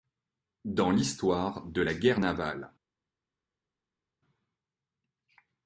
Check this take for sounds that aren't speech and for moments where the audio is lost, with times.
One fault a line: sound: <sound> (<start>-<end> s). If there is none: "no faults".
no faults